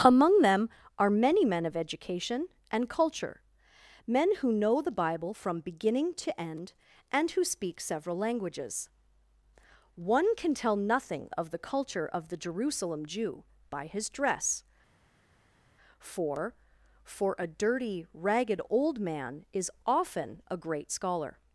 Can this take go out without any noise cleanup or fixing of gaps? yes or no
yes